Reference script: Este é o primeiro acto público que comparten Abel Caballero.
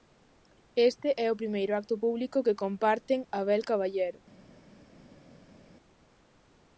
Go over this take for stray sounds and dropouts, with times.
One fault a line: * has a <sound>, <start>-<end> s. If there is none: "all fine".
all fine